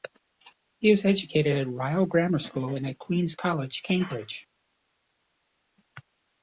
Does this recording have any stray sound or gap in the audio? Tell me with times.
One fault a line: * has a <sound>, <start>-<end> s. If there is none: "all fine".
all fine